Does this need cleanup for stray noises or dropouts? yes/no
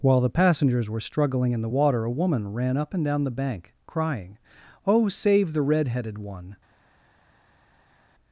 no